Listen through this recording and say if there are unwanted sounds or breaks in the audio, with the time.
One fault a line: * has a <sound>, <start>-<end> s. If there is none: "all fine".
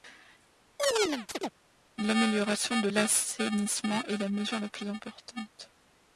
* has a chirp, 0.8-1.5 s